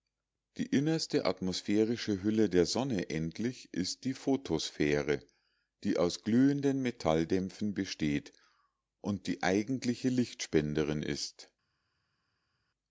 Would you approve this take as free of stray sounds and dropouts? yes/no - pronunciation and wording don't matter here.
yes